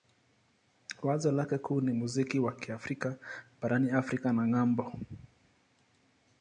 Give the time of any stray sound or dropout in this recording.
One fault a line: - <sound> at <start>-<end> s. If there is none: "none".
none